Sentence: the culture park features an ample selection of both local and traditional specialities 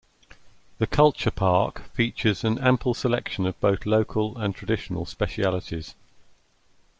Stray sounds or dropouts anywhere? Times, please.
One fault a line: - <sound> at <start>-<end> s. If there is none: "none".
none